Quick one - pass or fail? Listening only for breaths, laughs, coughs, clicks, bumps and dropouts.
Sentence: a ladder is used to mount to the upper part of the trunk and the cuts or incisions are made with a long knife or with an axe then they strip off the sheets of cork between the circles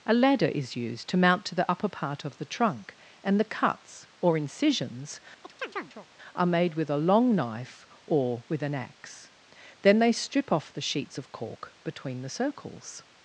fail